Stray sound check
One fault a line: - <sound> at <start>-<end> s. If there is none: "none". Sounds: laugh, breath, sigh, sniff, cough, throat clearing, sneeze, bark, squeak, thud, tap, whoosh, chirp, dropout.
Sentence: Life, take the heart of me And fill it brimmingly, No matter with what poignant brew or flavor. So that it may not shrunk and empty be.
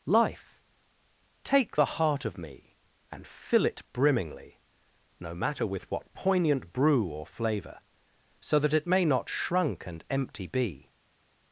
none